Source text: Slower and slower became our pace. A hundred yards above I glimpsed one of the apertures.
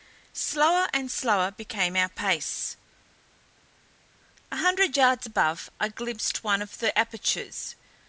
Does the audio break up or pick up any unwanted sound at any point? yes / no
no